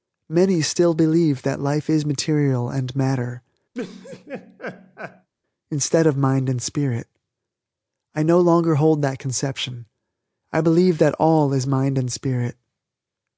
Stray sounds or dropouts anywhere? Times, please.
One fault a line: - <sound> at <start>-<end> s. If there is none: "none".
- laugh at 3.7-5.3 s